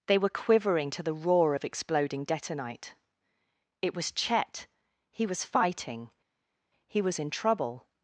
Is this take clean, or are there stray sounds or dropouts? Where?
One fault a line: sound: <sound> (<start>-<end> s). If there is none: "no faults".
no faults